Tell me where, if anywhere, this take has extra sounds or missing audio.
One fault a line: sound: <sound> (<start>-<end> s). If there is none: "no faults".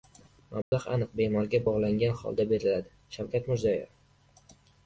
sound: dropout (0.6-0.7 s)